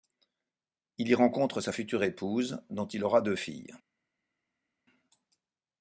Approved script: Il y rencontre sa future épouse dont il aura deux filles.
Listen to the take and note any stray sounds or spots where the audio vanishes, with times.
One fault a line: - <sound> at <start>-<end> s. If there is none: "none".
none